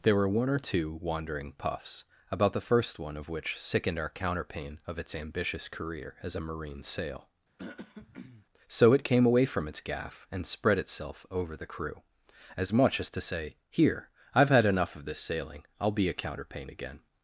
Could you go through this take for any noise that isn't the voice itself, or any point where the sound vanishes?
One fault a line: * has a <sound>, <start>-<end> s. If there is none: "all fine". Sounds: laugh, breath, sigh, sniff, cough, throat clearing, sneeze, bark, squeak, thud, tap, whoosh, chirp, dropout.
* has a throat clearing, 7.6-8.5 s